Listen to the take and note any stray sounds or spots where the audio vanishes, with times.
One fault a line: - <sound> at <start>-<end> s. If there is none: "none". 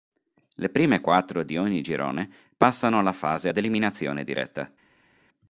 none